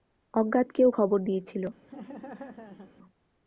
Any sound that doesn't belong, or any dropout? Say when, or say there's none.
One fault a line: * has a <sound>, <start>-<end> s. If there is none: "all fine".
* has a laugh, 1.9-2.9 s